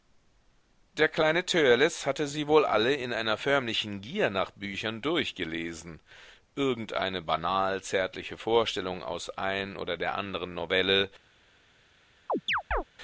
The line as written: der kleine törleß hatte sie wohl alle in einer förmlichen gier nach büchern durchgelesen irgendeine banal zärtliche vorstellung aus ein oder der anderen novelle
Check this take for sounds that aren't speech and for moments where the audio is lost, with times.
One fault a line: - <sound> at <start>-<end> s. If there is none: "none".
- chirp at 12.3-12.8 s